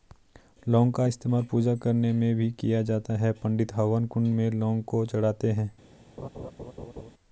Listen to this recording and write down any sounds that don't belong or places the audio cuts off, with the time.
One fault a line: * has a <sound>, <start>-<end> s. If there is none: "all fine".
* has a laugh, 6.2-7.1 s